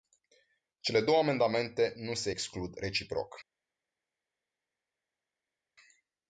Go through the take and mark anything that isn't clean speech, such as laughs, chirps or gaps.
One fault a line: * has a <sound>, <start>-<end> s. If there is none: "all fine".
all fine